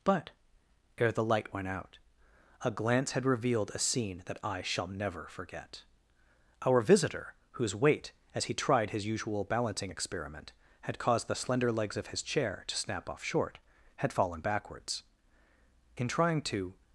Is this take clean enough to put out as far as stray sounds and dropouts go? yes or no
yes